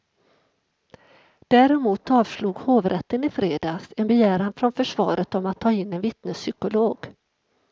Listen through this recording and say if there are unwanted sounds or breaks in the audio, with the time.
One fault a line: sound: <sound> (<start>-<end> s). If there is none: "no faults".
no faults